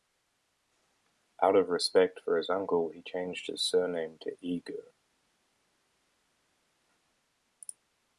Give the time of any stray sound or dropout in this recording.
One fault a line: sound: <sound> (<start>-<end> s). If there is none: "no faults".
no faults